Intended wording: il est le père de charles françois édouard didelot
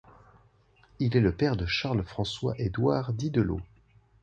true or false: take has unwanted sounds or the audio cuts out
false